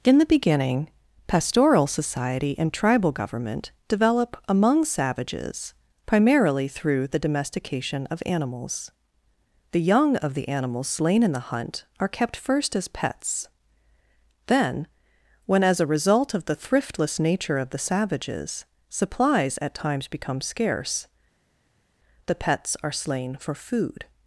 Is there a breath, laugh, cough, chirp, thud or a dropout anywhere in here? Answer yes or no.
no